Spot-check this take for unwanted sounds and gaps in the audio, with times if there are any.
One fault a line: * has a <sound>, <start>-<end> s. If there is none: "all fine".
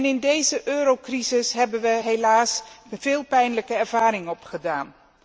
all fine